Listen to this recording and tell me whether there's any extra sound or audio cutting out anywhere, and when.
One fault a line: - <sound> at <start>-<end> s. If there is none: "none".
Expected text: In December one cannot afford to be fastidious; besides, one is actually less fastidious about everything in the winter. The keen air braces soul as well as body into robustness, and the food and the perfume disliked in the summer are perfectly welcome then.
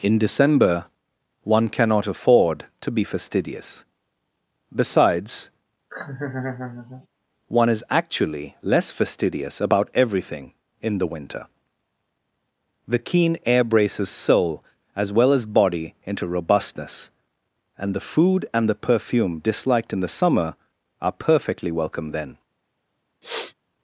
- laugh at 5.9-7.1 s
- sniff at 23.2-23.5 s